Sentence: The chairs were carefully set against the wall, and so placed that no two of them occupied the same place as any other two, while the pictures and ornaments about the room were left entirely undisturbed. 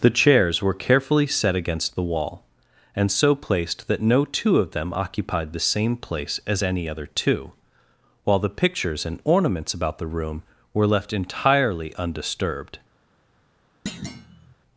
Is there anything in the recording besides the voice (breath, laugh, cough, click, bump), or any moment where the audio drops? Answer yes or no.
yes